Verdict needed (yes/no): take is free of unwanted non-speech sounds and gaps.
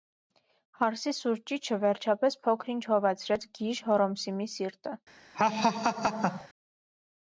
no